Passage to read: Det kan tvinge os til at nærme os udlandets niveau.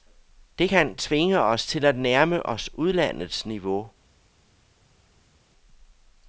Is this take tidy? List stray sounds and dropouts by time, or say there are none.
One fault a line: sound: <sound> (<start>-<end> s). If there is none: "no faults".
no faults